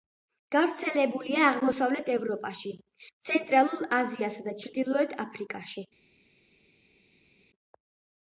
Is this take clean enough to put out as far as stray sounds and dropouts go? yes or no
yes